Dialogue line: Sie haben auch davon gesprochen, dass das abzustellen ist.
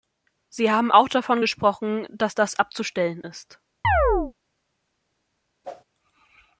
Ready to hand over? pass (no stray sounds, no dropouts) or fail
fail